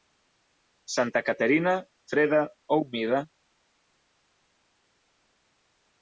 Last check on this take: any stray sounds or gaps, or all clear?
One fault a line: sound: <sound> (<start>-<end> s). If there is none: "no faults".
no faults